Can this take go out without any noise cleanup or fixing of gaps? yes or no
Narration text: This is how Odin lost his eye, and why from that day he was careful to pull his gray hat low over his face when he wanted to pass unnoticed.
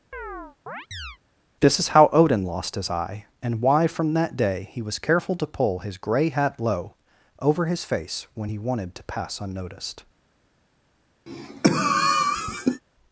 no